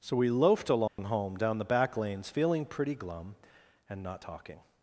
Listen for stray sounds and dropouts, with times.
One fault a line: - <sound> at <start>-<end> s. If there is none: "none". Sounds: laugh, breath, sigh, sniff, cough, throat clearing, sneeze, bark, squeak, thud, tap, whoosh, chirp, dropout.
- dropout at 0.9-1.0 s